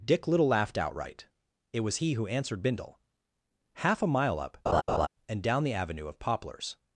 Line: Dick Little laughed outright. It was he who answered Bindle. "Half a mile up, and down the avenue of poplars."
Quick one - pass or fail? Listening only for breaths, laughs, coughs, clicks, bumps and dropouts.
fail